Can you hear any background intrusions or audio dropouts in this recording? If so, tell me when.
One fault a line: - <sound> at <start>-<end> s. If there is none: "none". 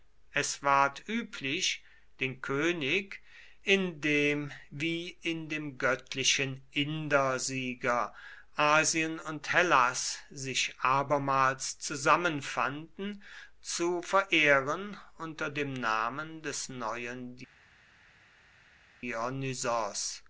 none